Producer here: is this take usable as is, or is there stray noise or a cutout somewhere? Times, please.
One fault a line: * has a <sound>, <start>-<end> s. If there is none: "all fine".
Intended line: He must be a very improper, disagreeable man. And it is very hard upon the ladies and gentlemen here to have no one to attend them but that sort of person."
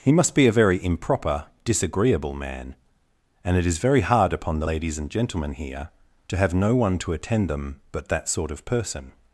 all fine